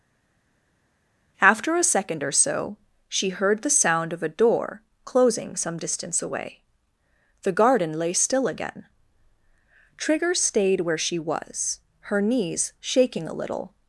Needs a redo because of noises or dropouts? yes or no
no